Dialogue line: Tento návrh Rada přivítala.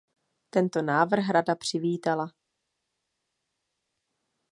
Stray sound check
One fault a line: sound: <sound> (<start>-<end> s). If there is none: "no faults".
no faults